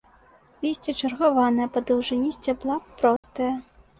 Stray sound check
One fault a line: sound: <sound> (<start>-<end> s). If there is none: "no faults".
sound: dropout (3.2-3.2 s)